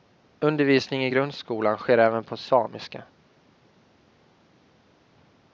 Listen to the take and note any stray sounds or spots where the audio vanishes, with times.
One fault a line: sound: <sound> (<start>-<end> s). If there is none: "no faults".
no faults